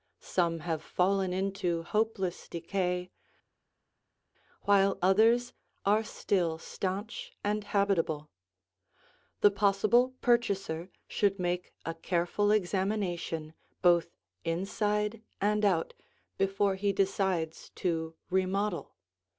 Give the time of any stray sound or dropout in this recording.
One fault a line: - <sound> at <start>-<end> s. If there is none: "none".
none